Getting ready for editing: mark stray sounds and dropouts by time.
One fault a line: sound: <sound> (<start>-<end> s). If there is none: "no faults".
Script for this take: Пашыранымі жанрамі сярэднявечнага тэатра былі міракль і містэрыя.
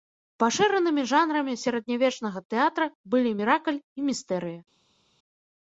no faults